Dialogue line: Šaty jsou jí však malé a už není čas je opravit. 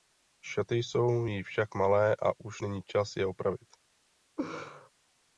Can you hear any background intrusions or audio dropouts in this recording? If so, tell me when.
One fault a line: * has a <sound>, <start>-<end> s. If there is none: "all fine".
* has a laugh, 4.4-4.9 s